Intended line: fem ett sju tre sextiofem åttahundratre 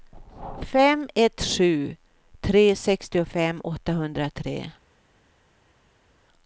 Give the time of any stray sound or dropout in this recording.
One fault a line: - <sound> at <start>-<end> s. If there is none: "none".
none